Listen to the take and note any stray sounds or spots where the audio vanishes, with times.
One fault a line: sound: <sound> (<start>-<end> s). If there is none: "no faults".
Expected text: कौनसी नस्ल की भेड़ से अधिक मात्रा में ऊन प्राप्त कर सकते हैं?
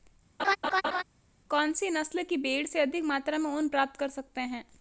sound: laugh (0.4-1.0 s)